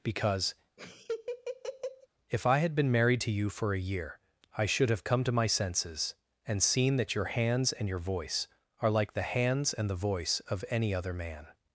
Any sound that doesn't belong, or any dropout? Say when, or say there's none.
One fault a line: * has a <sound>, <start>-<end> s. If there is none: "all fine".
* has a laugh, 0.8-2.1 s